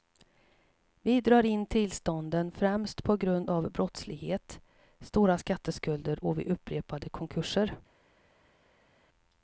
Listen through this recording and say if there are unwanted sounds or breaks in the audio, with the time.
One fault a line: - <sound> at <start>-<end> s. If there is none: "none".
none